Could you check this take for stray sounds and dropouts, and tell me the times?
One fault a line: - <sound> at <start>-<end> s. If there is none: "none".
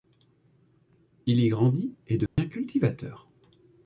- dropout at 2.3-2.4 s